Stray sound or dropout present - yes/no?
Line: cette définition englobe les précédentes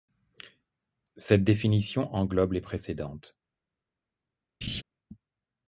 yes